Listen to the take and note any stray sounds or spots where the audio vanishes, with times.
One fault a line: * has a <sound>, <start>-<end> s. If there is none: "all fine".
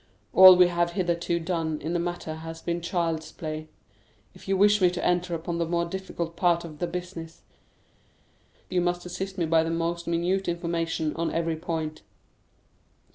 all fine